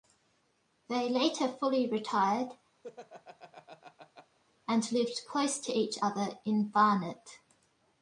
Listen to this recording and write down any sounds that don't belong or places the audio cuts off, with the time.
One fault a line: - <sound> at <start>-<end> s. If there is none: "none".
- laugh at 2.8-4.4 s